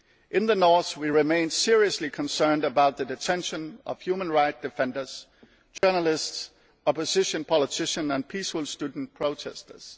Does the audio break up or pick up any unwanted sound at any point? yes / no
yes